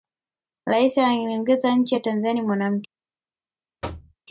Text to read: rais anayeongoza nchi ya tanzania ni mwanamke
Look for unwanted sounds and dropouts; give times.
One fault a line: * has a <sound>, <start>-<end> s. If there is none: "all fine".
* has a thud, 3.8-4.2 s